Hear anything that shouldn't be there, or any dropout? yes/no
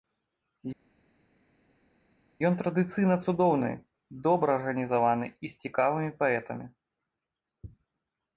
no